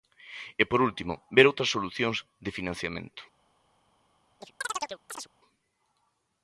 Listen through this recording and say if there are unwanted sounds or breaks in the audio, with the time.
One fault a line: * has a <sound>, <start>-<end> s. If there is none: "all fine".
* has a chirp, 4.4-5.3 s